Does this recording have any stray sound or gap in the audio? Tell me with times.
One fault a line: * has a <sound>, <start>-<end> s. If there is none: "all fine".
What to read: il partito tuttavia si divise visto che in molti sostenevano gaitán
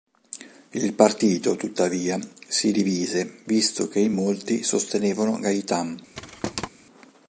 * has a thud, 6.1-6.7 s